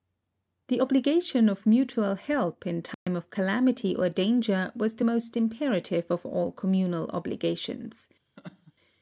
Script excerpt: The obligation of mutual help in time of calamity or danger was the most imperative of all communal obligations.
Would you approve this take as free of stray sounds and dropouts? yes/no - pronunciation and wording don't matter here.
no